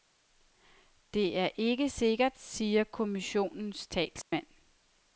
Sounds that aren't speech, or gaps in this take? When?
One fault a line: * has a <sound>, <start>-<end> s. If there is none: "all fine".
* has a dropout, 4.2-4.3 s